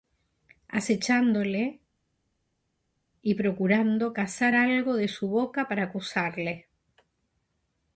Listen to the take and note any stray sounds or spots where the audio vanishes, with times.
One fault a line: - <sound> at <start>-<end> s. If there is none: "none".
none